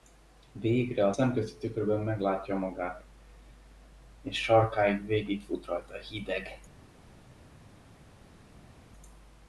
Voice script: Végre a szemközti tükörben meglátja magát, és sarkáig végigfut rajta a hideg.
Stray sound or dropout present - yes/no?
no